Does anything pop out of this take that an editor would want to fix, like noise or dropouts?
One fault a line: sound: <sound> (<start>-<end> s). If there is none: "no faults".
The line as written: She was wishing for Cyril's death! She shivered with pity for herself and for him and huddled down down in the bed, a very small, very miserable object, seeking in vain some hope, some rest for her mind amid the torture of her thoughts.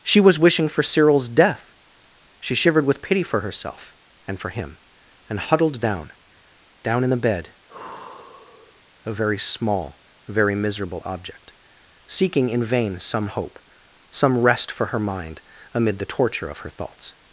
sound: sigh (7.7-8.8 s)